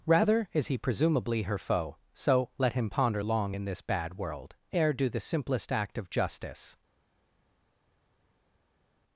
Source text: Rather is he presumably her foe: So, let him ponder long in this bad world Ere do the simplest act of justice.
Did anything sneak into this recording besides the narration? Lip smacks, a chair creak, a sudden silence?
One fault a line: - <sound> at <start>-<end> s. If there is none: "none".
none